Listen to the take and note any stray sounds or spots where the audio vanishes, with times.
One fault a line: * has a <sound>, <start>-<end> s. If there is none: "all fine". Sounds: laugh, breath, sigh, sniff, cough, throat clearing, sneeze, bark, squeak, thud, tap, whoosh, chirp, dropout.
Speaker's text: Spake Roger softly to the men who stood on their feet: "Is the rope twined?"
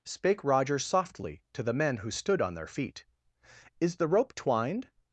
all fine